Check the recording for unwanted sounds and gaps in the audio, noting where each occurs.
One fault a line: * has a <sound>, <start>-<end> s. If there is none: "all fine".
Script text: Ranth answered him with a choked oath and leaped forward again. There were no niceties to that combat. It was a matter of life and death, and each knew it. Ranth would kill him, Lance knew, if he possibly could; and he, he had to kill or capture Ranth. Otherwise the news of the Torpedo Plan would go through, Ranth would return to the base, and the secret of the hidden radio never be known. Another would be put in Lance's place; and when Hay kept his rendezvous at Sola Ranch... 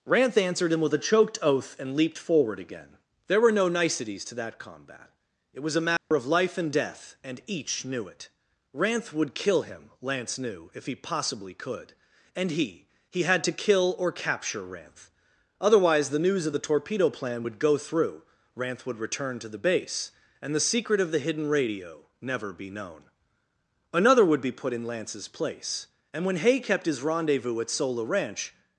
* has a dropout, 6.0-6.1 s